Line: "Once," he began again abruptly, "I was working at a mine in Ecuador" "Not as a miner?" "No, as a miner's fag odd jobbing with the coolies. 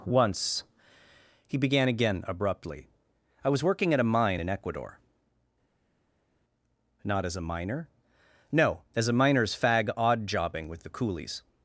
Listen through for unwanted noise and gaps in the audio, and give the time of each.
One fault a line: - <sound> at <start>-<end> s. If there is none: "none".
none